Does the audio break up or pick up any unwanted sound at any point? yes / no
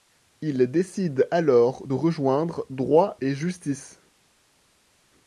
no